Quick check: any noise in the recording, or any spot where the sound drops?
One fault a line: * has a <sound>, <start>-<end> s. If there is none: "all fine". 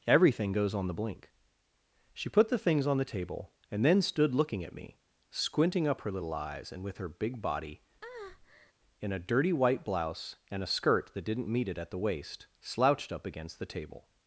* has a breath, 8.0-8.7 s